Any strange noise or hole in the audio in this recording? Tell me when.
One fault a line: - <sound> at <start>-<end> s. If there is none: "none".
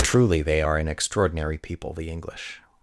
none